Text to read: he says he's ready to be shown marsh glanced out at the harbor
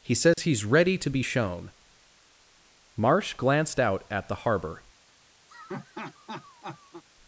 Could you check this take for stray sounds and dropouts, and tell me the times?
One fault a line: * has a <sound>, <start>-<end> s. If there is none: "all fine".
* has a dropout, 0.3-0.4 s
* has a laugh, 5.5-7.0 s